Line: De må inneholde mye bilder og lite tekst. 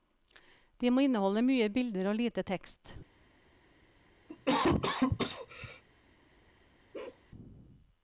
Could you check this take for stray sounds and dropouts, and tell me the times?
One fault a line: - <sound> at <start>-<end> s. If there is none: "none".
- cough at 4.3-5.8 s
- bark at 6.9-7.2 s